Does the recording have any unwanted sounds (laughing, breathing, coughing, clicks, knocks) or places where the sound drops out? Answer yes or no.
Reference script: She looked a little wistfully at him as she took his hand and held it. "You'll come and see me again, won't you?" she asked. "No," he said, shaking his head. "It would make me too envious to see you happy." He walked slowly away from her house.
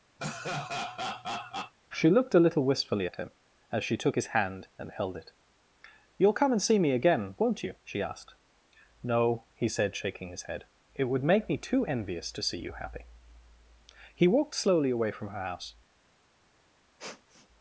yes